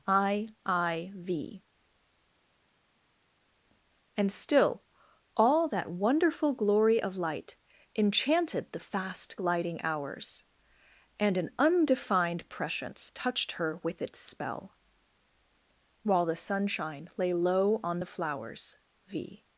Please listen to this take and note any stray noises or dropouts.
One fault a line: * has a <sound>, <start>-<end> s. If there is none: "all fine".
all fine